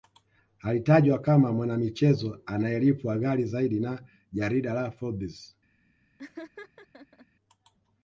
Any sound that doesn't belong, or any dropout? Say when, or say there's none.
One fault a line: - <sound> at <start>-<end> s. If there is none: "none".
- laugh at 6.2-7.3 s